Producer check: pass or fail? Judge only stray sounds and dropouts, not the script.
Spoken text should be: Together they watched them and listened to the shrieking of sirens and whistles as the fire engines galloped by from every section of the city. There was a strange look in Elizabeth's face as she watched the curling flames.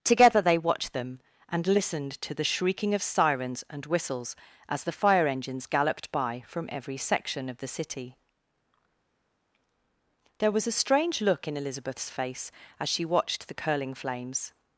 pass